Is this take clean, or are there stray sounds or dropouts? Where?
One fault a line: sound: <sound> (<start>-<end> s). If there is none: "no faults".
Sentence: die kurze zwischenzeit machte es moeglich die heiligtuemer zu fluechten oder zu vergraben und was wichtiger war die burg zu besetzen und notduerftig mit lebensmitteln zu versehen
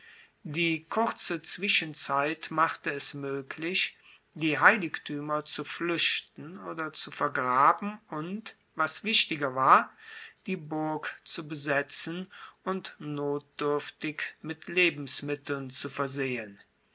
no faults